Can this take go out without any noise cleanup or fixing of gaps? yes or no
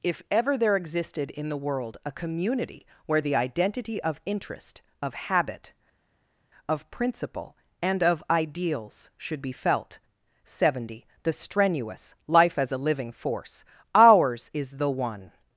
yes